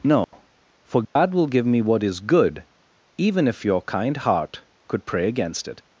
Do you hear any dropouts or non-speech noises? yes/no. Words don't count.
yes